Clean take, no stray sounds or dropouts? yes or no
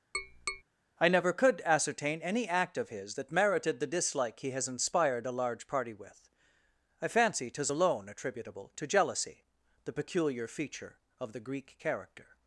no